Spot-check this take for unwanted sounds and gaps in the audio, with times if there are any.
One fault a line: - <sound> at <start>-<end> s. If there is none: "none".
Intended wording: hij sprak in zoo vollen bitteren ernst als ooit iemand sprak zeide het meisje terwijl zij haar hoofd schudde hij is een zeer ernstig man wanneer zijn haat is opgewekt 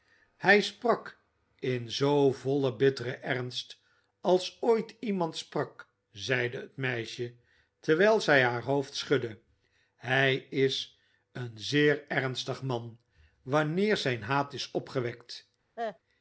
- cough at 15.8-16.0 s